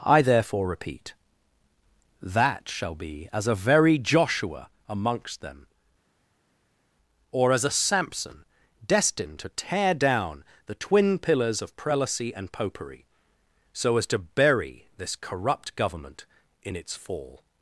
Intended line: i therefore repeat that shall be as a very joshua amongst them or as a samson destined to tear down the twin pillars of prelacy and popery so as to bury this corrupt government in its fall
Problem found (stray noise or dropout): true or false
false